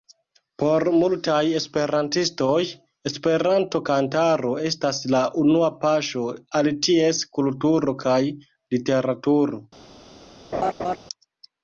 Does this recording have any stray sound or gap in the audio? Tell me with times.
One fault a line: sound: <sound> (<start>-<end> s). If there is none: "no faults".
sound: laugh (10.5-11.0 s)